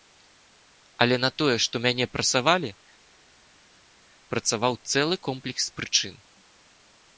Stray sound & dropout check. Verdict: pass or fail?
pass